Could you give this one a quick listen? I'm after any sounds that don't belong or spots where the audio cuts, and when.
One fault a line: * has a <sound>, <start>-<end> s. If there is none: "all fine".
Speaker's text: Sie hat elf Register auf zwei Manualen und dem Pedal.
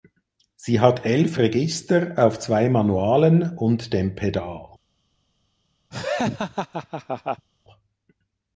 * has a laugh, 5.9-7.5 s